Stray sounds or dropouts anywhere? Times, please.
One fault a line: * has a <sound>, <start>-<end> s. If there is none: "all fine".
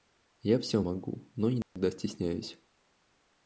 * has a dropout, 1.6-1.8 s